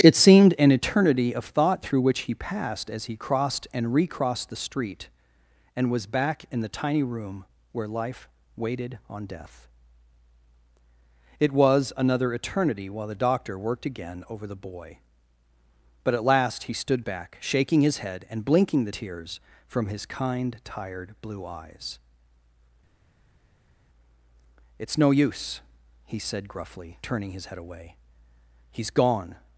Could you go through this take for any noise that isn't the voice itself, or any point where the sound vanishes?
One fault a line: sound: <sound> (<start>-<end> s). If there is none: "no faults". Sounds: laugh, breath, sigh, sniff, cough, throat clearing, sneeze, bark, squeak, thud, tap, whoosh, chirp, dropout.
no faults